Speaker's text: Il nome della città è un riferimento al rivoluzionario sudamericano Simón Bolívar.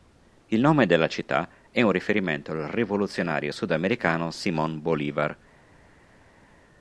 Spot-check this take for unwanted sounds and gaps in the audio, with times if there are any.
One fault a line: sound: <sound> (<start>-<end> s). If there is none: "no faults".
no faults